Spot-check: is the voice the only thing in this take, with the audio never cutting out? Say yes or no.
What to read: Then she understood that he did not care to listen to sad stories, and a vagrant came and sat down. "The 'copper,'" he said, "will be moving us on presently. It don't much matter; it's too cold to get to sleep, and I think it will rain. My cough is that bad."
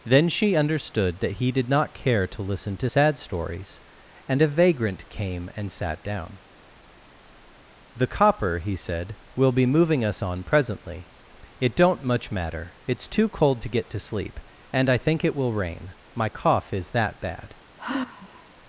no